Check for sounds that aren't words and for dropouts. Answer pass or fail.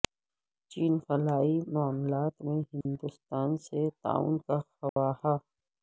fail